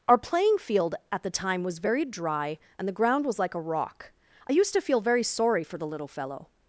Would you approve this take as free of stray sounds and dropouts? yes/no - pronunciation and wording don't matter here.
yes